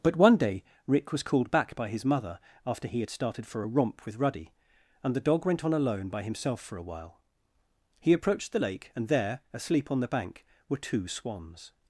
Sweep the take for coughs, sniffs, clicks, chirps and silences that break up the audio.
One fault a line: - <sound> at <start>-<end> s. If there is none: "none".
none